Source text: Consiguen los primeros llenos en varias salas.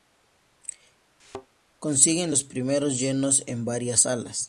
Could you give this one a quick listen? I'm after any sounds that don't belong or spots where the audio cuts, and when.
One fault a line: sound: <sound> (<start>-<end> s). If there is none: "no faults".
sound: thud (1.2-1.5 s)